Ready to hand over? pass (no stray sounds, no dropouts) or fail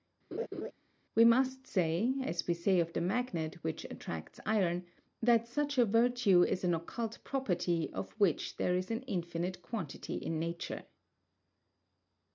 fail